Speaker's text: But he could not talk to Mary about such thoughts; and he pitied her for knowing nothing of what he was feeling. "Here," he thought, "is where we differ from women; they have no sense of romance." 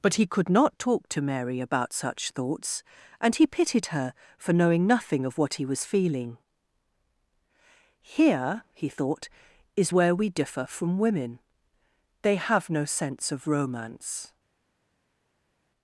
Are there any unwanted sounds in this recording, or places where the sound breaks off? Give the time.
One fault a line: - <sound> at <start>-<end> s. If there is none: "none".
none